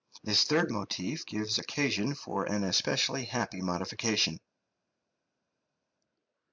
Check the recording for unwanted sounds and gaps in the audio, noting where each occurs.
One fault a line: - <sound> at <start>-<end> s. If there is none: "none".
none